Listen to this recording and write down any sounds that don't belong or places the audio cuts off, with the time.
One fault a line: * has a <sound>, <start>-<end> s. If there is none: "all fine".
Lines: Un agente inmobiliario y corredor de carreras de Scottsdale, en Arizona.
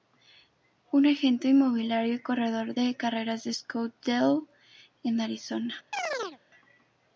* has a chirp, 5.9-6.4 s